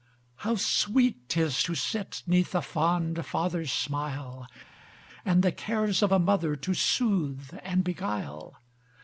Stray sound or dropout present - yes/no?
no